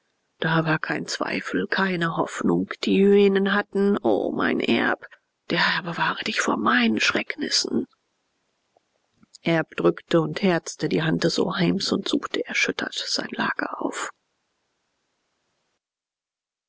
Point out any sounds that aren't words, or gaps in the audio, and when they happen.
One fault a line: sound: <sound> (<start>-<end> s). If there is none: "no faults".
no faults